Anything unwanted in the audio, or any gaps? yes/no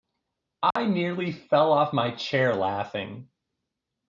yes